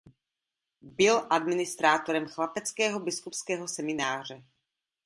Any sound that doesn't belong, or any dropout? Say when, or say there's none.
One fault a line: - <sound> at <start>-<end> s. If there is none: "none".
none